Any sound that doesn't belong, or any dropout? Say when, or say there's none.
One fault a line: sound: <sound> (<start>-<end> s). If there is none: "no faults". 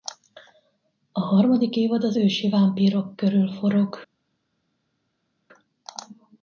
no faults